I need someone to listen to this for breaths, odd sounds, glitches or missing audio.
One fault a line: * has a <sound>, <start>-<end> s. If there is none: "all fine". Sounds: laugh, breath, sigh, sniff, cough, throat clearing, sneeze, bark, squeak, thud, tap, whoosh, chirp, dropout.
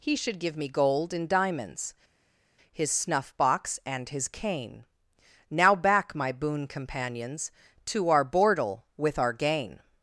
all fine